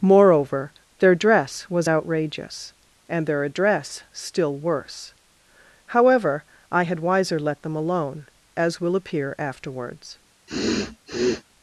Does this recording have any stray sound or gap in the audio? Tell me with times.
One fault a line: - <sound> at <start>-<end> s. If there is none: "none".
- sniff at 10.5-11.4 s